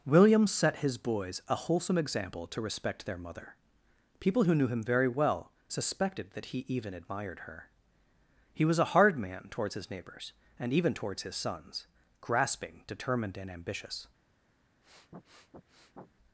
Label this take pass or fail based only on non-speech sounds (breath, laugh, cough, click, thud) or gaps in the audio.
fail